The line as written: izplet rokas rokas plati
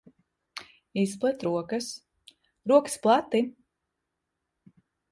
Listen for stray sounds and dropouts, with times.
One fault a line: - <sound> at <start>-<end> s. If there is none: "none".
none